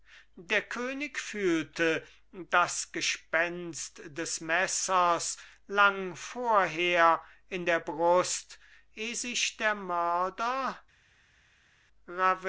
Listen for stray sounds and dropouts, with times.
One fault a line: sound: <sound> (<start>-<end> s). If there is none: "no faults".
no faults